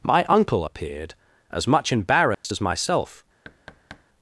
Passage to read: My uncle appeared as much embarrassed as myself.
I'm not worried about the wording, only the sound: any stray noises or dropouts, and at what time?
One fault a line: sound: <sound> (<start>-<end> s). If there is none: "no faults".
sound: dropout (2.3-2.4 s)
sound: thud (3.4-4.1 s)